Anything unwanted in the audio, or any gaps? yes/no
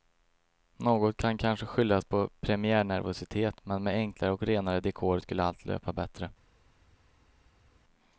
no